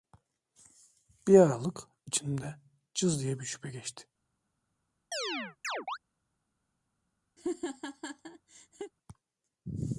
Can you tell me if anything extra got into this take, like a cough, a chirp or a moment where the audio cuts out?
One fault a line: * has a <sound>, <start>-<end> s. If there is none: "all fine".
* has a chirp, 5.1-6.0 s
* has a laugh, 7.4-8.9 s